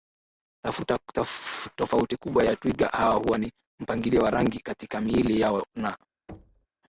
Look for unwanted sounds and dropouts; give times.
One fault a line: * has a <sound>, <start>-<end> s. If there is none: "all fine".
* has a thud, 6.3-6.7 s